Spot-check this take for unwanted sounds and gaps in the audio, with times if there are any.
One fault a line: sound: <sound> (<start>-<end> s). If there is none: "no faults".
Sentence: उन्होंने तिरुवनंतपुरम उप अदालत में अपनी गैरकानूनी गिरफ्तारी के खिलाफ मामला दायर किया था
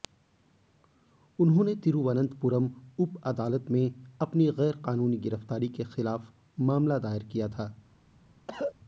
sound: cough (8.5-8.7 s)